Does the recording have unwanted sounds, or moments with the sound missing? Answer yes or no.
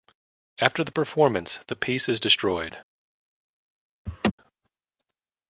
yes